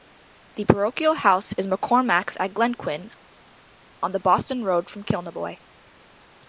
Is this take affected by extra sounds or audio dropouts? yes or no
no